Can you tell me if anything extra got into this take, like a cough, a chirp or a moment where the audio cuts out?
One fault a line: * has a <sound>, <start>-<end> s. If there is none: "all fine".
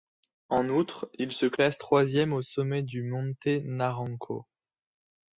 all fine